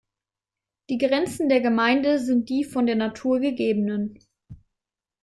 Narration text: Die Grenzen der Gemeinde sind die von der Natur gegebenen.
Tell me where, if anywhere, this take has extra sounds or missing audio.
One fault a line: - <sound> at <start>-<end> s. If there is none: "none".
none